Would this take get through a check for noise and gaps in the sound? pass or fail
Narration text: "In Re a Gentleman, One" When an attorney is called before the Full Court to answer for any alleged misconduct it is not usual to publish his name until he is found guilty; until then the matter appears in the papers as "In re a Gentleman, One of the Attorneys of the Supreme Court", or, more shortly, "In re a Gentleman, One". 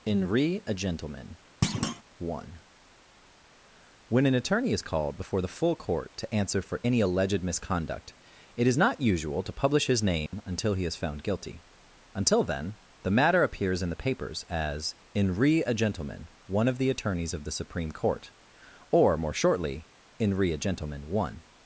fail